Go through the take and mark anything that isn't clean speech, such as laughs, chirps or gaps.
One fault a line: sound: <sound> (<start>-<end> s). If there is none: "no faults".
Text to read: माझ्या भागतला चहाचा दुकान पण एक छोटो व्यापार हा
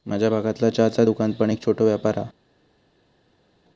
no faults